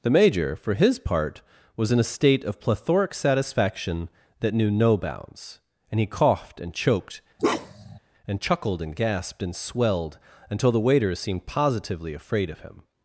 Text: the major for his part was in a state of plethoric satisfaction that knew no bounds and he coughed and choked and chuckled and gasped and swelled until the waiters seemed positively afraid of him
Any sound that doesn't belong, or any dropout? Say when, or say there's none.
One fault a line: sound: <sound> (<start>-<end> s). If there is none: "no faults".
sound: bark (7.4-8.0 s)